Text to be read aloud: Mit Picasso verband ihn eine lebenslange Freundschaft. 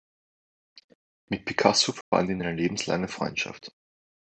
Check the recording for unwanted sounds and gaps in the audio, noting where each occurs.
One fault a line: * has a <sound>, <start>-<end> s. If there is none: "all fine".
* has a dropout, 2.0-2.1 s